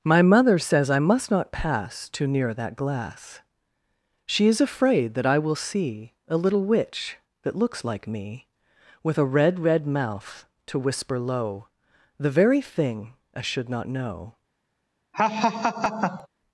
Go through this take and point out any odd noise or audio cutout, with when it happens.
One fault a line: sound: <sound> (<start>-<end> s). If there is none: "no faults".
sound: laugh (15.1-16.3 s)